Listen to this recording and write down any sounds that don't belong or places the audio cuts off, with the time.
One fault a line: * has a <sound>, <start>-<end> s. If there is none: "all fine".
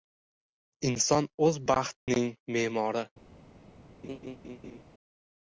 * has a dropout, 2.0-2.1 s
* has a laugh, 4.0-4.8 s